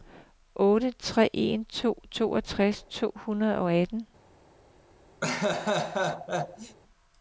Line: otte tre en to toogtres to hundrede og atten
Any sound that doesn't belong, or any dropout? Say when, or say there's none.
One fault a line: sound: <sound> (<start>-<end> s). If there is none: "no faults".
sound: laugh (5.2-6.8 s)